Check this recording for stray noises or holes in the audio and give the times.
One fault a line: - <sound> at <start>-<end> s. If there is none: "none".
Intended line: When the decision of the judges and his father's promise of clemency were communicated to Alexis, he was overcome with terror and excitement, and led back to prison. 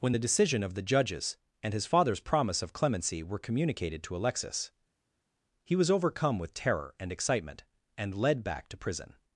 none